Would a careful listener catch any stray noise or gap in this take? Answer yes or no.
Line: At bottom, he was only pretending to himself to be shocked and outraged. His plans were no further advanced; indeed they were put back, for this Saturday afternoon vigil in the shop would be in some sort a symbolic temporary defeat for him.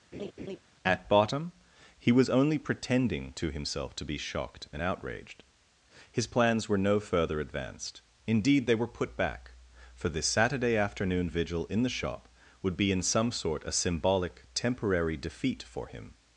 yes